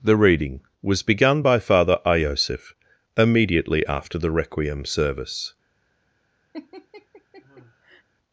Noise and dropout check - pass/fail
fail